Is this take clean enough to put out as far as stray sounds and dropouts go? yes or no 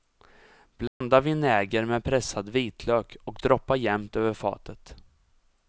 no